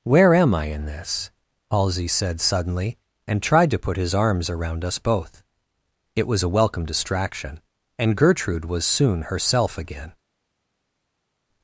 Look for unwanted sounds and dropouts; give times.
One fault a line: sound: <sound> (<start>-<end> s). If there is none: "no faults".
no faults